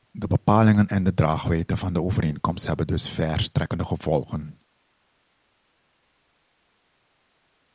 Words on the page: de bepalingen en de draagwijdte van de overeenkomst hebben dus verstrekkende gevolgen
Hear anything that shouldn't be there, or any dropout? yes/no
no